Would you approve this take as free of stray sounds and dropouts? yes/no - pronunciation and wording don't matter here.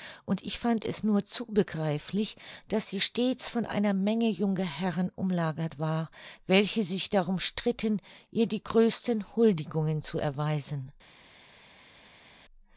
yes